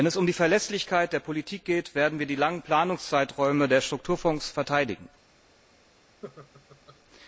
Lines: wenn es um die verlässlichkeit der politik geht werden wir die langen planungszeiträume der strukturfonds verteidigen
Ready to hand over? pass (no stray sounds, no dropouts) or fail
fail